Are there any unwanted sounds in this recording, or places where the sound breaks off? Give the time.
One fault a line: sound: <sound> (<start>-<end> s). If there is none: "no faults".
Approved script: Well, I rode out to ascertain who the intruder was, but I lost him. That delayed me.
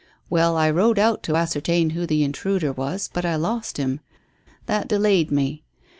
no faults